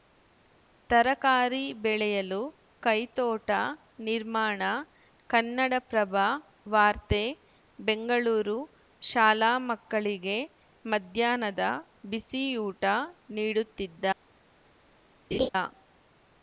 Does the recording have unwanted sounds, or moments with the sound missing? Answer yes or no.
yes